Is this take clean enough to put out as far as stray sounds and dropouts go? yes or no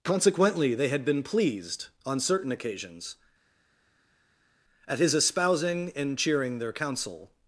yes